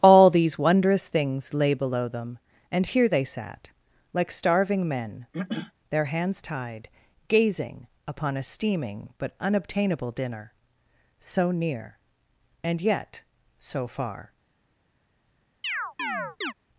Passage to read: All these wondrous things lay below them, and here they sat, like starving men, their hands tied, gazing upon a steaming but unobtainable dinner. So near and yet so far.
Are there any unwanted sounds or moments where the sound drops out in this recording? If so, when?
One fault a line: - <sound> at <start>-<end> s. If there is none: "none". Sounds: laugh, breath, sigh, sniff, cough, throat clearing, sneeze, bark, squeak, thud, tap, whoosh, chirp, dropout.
- throat clearing at 5.3-5.7 s
- chirp at 15.6-16.5 s